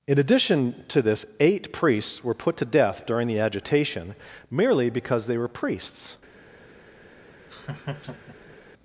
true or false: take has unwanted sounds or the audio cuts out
true